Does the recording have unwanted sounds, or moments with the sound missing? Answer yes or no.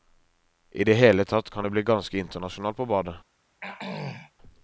yes